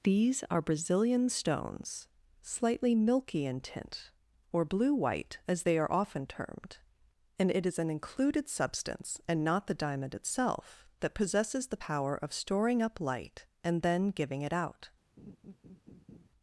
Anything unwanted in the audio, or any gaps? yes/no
yes